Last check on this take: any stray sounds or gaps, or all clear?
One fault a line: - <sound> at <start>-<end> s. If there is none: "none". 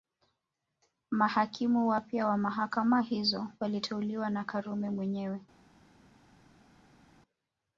none